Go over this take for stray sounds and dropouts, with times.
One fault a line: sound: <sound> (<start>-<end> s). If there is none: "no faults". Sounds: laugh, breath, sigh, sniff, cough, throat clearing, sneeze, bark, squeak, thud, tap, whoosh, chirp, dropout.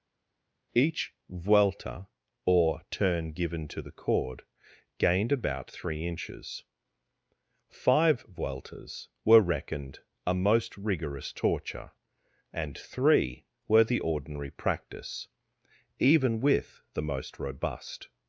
no faults